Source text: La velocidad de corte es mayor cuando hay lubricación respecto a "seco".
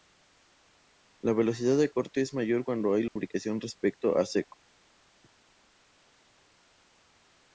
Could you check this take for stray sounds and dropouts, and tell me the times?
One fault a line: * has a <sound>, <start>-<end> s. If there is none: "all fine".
* has a dropout, 3.1-3.2 s